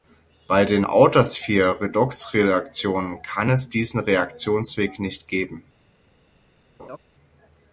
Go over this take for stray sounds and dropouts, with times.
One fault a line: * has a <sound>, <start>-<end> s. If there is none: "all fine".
* has a laugh, 6.8-7.0 s